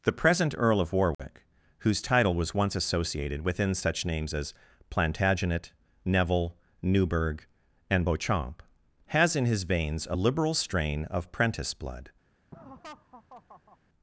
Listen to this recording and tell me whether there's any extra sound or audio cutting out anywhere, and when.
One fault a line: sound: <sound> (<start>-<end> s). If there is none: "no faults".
sound: dropout (1.1-1.2 s)
sound: laugh (12.5-13.8 s)